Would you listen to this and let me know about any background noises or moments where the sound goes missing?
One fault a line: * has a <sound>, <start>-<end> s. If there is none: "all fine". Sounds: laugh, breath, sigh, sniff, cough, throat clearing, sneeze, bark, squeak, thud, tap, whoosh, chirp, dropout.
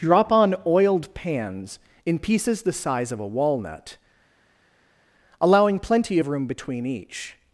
all fine